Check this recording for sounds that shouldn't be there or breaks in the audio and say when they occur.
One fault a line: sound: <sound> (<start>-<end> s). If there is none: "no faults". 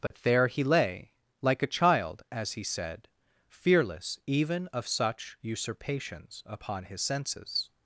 sound: dropout (0.1-0.1 s)